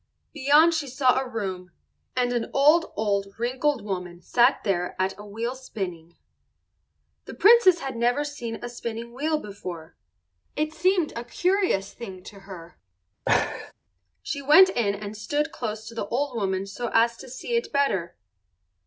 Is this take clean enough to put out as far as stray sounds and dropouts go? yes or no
no